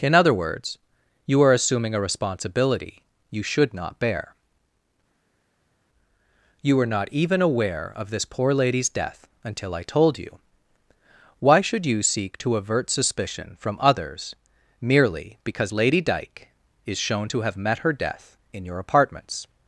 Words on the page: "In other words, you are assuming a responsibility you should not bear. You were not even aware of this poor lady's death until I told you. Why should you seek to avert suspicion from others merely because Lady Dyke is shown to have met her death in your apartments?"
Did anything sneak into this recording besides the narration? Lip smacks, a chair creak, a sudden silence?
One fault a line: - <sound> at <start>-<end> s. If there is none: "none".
none